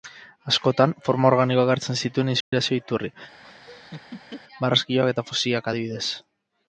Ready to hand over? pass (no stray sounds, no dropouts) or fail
fail